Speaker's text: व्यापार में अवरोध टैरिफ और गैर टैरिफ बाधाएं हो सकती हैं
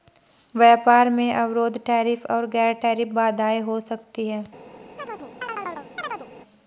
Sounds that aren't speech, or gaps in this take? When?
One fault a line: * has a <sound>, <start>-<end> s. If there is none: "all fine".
* has a chirp, 5.0-6.3 s